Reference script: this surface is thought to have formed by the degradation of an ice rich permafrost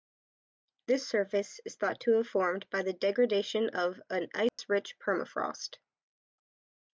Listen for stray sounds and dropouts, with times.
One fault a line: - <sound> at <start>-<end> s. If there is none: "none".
- dropout at 4.5-4.6 s